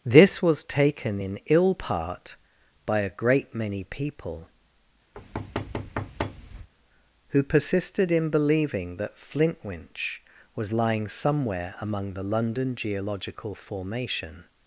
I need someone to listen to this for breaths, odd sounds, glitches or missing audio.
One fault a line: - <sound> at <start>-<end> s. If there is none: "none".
- thud at 5.1-6.7 s